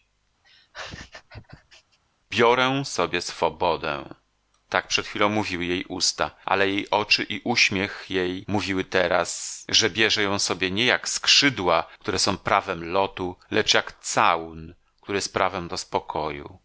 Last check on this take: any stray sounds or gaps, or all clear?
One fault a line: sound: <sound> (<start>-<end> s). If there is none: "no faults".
sound: laugh (0.4-2.0 s)